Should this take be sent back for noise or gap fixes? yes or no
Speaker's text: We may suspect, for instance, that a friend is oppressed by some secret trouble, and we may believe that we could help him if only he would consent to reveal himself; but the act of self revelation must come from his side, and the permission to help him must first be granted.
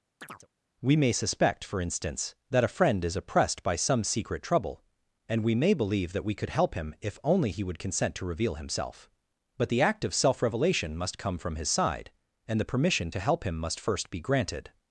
yes